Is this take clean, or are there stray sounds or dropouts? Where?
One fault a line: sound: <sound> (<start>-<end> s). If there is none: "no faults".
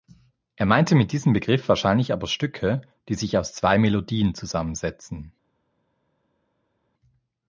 no faults